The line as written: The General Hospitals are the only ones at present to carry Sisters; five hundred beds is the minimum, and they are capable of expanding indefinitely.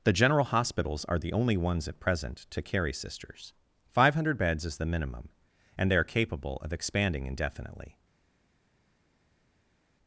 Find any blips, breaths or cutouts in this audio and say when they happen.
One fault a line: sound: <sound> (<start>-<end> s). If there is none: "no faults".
no faults